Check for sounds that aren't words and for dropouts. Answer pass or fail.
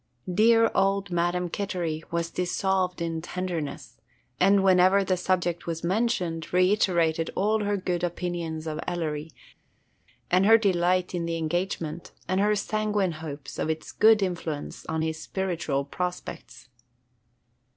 pass